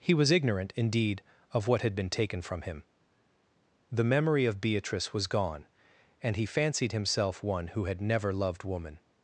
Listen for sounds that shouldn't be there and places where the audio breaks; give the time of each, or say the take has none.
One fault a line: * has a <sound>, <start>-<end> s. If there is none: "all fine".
all fine